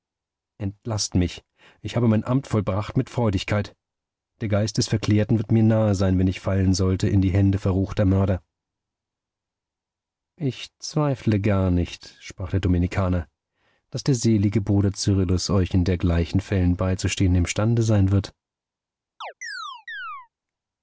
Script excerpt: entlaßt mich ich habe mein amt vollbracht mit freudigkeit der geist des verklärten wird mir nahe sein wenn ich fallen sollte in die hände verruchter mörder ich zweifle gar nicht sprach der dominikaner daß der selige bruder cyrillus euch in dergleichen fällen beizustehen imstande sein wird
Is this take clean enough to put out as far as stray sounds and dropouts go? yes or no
no